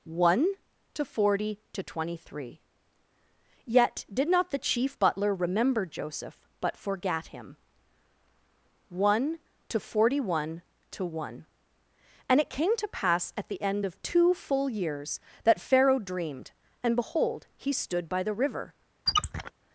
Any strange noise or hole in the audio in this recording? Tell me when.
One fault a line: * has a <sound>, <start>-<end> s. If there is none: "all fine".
* has a squeak, 19.1-19.5 s